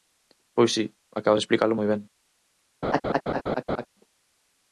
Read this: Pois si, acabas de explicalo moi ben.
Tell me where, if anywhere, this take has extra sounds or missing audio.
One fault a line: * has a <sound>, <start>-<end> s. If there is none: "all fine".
* has a laugh, 2.8-3.9 s